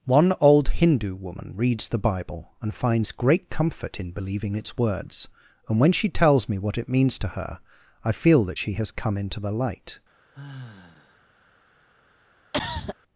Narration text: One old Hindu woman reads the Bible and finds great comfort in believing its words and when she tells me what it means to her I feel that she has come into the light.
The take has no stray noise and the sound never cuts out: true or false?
false